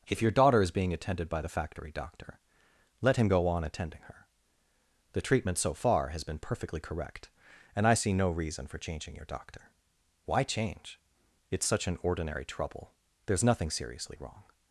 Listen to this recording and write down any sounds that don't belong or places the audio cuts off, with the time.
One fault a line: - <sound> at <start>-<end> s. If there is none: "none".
none